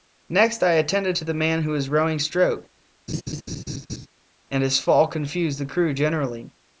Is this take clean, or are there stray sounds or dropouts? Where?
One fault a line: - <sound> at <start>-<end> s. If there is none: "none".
- laugh at 3.1-4.1 s